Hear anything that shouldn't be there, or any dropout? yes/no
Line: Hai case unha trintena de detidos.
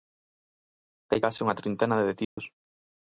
yes